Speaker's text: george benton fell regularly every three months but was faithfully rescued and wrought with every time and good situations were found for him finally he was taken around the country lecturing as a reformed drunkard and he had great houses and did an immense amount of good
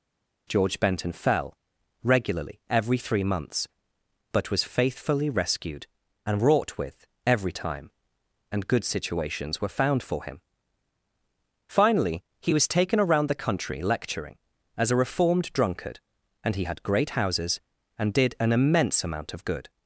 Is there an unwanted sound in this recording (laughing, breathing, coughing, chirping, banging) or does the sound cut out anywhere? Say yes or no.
no